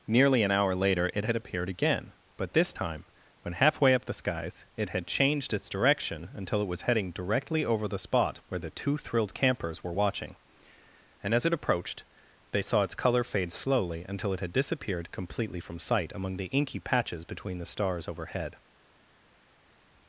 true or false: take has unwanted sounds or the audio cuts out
false